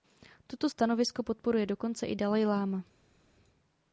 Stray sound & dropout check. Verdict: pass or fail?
pass